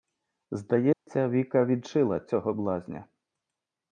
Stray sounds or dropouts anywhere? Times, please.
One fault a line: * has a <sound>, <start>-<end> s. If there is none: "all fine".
* has a dropout, 0.9-1.1 s